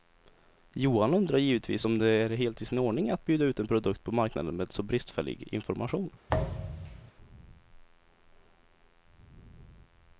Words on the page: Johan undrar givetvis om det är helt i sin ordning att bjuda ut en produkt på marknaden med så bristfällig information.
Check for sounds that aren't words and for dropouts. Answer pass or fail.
fail